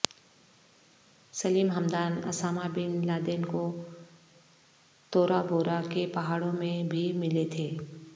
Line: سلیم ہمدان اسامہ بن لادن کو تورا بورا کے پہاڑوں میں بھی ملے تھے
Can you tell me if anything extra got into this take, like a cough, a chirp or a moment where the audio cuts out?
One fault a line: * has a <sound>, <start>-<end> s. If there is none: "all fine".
all fine